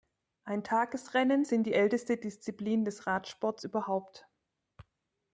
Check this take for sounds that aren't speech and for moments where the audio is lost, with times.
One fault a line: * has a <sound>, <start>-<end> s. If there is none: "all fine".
all fine